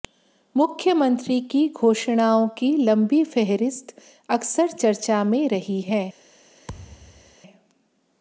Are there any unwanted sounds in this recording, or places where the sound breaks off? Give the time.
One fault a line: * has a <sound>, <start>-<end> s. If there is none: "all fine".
* has a thud, 6.7-7.4 s